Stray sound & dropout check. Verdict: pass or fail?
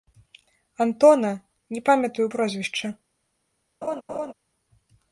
fail